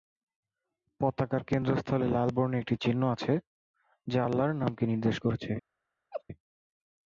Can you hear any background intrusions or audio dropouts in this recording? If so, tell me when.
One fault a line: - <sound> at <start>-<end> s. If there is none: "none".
- laugh at 6.1-6.2 s